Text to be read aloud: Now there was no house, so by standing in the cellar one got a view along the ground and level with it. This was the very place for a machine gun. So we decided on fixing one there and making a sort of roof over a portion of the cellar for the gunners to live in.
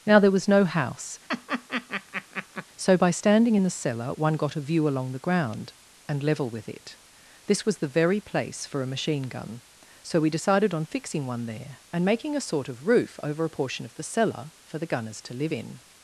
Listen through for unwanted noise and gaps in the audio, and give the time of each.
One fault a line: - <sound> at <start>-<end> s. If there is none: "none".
- laugh at 1.3-2.7 s